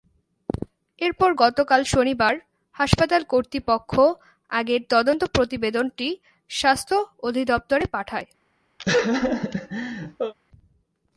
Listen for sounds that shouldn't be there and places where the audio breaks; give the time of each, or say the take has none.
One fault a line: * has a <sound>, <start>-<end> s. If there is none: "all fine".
* has a laugh, 8.8-10.3 s